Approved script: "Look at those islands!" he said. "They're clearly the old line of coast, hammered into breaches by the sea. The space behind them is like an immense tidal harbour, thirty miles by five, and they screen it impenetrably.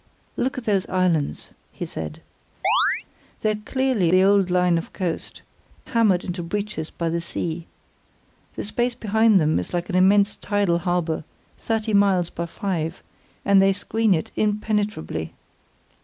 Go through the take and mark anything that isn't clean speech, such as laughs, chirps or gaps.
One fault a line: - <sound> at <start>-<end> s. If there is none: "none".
- chirp at 2.6-3.0 s